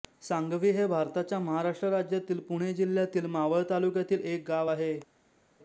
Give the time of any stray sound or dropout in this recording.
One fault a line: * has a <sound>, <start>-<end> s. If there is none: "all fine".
all fine